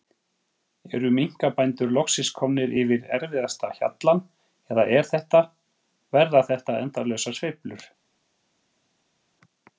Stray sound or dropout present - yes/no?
no